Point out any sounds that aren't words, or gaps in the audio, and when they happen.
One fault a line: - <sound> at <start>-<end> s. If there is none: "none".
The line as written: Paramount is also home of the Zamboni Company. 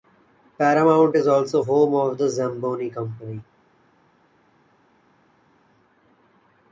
none